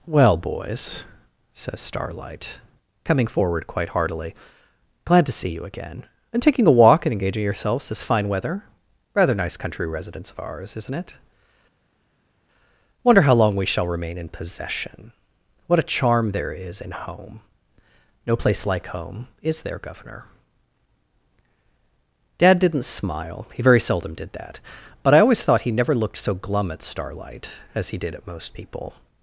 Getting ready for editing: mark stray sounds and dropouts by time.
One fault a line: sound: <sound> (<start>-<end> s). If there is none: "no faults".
no faults